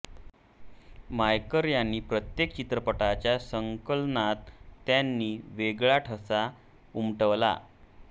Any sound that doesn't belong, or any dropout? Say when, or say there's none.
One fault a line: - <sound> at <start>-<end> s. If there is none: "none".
none